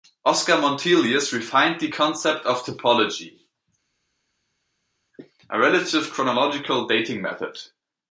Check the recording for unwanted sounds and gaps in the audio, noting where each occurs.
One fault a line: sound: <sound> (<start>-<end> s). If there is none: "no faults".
no faults